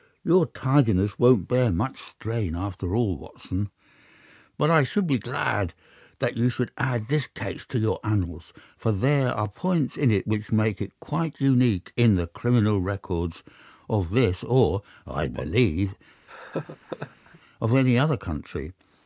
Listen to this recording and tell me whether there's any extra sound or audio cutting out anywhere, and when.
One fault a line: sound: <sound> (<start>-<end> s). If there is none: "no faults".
sound: laugh (16.3-17.4 s)